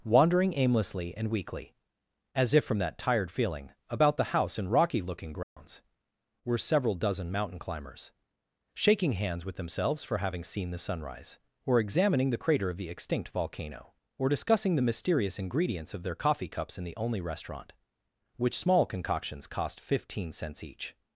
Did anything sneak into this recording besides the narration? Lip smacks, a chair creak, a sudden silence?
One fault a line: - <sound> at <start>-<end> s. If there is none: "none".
- dropout at 5.4-5.6 s